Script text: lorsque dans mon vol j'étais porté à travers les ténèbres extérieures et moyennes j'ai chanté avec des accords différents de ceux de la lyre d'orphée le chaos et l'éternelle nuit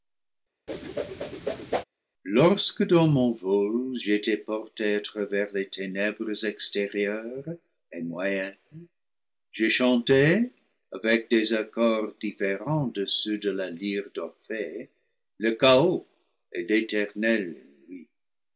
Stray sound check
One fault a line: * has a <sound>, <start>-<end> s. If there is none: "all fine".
* has a whoosh, 0.7-1.8 s